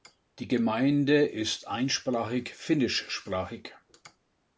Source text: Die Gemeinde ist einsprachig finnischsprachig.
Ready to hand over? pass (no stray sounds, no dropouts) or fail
pass